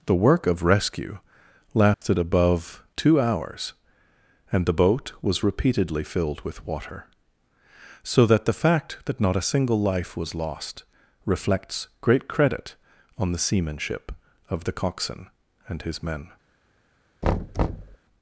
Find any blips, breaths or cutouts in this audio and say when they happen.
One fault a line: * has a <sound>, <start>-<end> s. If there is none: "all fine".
* has a dropout, 1.9-2.0 s
* has a thud, 17.2-18.0 s